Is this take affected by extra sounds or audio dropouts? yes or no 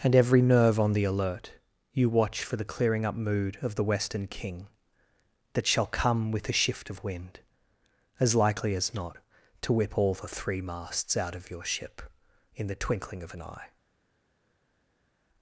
no